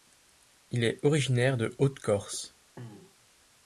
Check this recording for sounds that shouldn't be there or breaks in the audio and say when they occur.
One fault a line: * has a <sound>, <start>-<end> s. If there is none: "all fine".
* has a throat clearing, 2.8-3.3 s